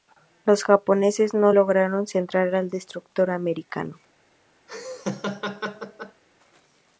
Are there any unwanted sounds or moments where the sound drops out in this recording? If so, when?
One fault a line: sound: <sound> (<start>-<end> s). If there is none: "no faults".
sound: laugh (4.7-6.2 s)